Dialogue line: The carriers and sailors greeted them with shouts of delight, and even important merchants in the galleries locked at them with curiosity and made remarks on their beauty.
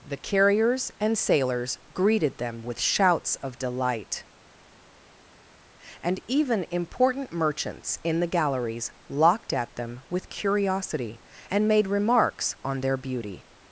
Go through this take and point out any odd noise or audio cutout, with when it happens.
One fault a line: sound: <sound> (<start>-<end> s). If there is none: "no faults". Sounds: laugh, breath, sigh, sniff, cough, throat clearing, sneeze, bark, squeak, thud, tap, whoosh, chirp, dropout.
no faults